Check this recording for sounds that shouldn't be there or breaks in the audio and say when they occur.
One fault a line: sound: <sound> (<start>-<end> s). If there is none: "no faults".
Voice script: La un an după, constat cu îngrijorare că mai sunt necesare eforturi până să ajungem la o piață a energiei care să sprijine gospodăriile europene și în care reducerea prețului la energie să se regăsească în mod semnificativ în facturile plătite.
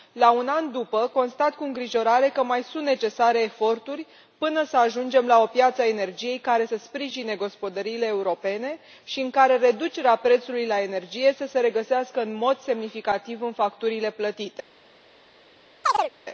sound: chirp (15.8-16.1 s)